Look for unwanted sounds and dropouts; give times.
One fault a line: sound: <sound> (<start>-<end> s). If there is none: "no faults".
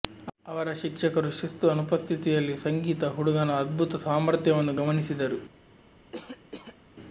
sound: cough (6.1-6.8 s)